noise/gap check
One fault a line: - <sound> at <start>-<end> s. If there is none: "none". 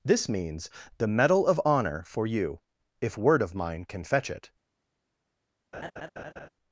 - laugh at 5.7-6.5 s